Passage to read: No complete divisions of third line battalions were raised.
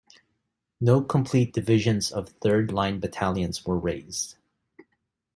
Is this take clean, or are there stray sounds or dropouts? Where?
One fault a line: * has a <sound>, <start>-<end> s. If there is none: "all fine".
all fine